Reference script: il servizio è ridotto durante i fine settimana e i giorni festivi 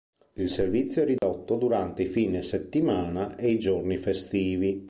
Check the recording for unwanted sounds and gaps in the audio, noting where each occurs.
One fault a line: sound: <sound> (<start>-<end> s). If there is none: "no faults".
sound: dropout (1.2-1.2 s)